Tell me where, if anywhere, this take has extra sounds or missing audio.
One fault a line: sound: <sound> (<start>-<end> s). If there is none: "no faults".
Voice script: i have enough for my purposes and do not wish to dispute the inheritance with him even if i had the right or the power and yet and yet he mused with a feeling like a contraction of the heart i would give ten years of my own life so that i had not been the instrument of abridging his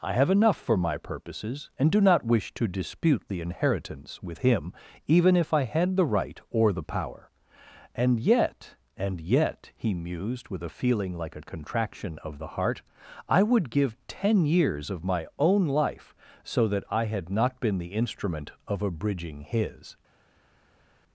no faults